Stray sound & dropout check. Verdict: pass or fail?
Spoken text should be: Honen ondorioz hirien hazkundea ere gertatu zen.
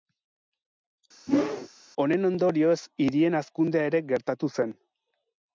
fail